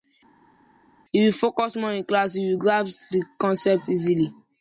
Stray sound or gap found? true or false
false